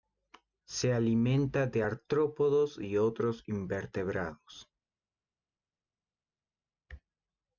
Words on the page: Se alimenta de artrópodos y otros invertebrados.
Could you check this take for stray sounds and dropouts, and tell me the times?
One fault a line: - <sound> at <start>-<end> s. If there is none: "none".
none